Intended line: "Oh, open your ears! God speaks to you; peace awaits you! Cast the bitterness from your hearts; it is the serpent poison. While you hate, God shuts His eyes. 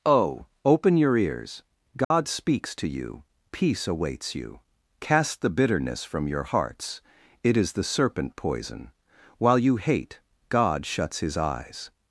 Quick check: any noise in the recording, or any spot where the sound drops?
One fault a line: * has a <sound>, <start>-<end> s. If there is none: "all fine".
* has a dropout, 2.0-2.1 s